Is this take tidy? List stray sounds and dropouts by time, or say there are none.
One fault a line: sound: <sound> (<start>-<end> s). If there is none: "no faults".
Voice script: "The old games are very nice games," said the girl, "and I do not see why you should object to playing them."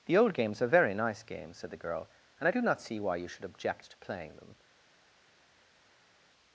no faults